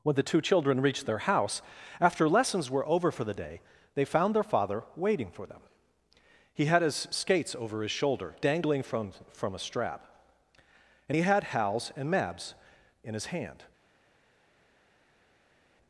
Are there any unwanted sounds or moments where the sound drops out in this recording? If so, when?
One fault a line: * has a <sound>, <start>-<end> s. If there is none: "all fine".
all fine